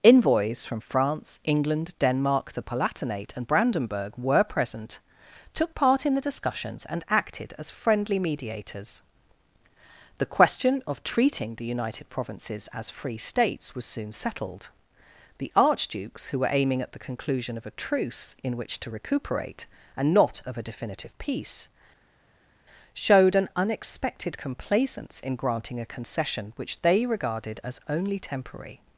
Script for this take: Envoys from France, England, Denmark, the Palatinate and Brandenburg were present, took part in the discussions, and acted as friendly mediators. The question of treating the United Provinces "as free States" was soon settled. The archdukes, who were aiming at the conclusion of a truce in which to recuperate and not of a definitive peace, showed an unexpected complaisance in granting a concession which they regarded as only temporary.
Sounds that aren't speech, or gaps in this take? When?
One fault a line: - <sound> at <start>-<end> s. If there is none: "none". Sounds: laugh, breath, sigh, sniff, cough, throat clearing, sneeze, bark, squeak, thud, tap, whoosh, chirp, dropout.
none